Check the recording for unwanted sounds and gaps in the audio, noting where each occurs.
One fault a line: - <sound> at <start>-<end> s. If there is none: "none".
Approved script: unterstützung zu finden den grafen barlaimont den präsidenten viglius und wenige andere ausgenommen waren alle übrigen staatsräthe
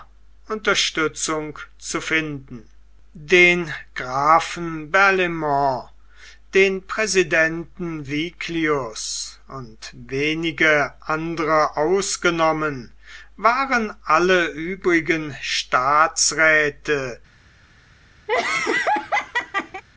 - laugh at 18.3-19.8 s